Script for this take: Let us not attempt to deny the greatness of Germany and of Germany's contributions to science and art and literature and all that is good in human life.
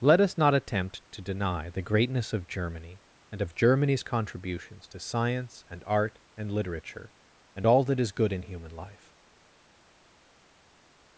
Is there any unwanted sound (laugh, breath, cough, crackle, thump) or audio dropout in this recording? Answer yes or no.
no